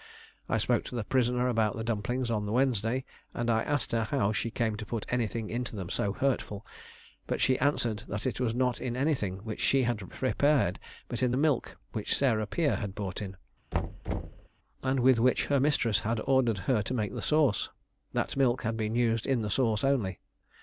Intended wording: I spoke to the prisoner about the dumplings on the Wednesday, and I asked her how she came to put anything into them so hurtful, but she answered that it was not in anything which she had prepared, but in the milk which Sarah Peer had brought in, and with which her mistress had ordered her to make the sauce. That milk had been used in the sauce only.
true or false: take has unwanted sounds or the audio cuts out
true